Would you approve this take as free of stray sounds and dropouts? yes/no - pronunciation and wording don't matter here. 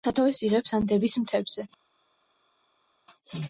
yes